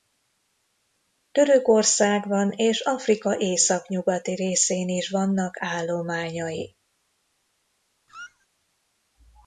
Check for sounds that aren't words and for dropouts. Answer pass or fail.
fail